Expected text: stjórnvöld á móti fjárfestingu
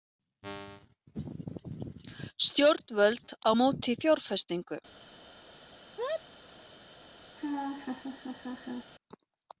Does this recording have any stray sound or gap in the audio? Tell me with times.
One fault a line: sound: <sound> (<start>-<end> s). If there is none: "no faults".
sound: sneeze (6.0-6.2 s)
sound: laugh (7.4-8.9 s)